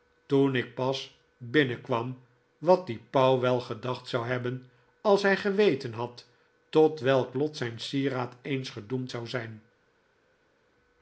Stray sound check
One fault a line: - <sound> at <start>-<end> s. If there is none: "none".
none